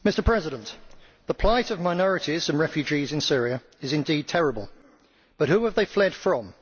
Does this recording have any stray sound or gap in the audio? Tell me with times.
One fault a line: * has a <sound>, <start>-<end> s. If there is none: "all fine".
all fine